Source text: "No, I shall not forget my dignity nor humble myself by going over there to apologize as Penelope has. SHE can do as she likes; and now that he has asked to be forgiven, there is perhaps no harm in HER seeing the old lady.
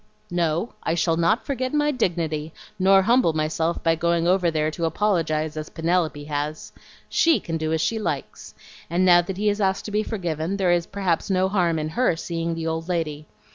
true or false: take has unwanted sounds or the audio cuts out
false